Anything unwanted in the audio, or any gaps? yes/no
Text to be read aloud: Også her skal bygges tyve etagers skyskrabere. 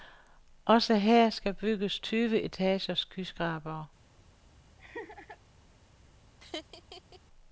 yes